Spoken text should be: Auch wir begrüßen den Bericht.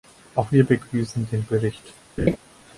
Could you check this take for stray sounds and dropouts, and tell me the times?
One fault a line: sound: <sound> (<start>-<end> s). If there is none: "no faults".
sound: laugh (2.2-2.4 s)